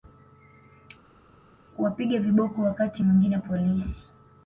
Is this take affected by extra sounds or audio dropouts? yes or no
no